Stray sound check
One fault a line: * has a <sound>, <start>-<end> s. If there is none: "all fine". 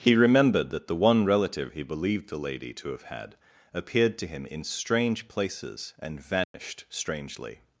* has a dropout, 6.4-6.5 s